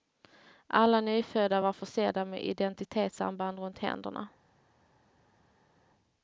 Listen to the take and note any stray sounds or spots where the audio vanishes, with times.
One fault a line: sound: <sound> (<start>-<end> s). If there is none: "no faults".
no faults